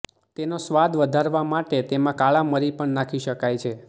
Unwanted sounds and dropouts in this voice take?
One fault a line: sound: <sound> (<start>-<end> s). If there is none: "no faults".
no faults